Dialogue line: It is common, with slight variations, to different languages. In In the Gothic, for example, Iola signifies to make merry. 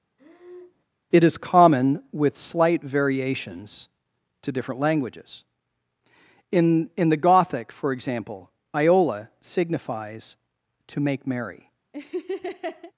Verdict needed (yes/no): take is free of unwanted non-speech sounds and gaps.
no